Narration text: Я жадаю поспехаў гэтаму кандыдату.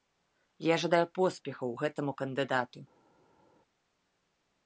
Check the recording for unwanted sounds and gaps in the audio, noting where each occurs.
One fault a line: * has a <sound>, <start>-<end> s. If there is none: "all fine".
all fine